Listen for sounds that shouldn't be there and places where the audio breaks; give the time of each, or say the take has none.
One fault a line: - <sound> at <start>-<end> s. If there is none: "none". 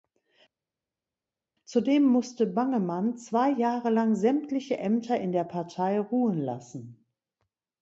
none